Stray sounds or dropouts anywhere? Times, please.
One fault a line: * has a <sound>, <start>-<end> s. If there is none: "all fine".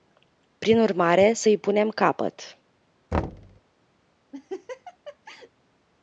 * has a thud, 3.1-3.6 s
* has a laugh, 4.3-5.5 s